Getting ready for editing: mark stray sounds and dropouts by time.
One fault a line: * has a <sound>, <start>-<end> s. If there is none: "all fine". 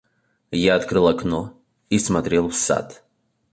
all fine